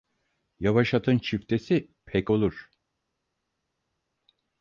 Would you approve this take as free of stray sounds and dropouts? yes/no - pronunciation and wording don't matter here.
yes